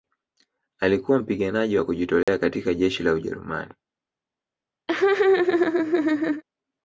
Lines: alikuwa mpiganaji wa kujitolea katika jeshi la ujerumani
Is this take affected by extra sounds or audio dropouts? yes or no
yes